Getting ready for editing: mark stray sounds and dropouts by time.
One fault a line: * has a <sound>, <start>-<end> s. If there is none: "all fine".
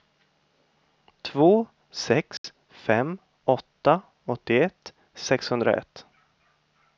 * has a dropout, 2.4-2.4 s